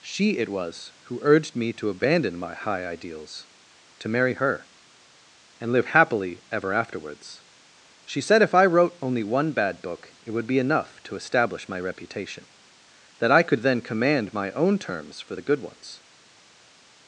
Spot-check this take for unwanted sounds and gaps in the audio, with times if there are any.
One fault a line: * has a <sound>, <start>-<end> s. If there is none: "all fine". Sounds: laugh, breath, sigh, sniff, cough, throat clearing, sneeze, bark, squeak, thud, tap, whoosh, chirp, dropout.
all fine